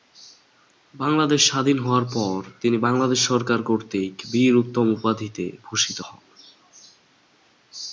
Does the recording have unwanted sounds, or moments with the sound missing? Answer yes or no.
no